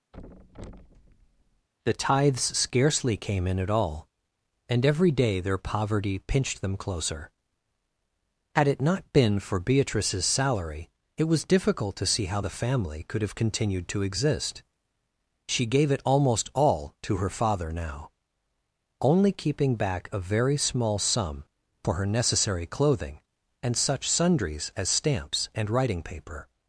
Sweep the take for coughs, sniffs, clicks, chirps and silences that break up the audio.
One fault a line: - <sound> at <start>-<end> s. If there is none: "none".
- thud at 0.1-1.7 s